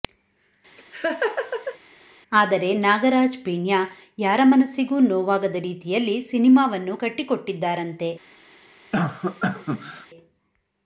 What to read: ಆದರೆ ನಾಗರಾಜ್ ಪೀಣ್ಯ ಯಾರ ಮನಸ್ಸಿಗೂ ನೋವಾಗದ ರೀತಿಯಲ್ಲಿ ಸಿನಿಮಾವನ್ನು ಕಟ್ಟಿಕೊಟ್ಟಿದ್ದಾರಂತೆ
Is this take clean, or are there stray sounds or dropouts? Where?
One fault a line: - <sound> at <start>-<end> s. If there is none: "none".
- laugh at 0.8-1.8 s
- cough at 8.9-10.1 s